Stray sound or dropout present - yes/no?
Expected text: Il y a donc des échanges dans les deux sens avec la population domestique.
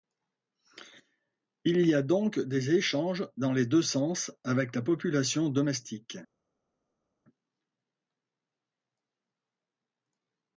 no